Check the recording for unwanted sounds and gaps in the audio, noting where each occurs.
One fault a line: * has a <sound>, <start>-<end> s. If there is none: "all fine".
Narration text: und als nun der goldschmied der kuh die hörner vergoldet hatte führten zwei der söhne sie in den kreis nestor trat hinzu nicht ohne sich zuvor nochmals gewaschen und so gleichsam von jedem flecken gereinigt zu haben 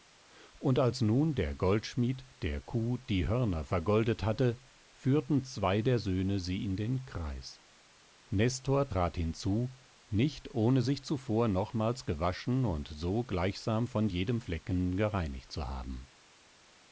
all fine